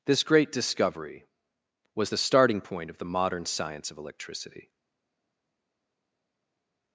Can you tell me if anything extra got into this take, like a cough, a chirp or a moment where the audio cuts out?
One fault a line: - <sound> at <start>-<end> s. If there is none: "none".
none